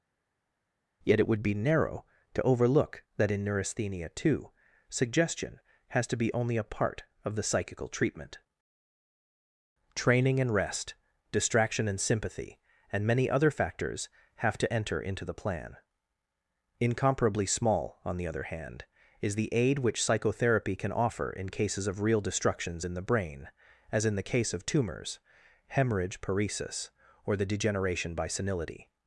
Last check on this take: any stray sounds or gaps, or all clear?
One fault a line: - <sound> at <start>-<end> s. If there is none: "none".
none